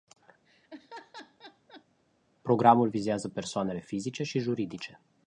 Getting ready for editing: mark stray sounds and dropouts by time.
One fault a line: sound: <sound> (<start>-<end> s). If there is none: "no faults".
sound: laugh (0.4-1.8 s)